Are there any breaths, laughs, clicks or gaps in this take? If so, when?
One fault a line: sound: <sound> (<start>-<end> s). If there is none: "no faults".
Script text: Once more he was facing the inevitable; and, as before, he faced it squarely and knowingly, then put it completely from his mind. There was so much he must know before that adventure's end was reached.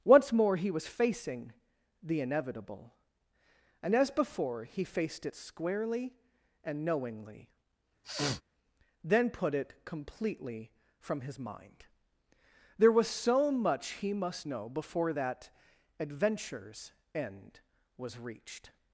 sound: sniff (8.0-8.4 s)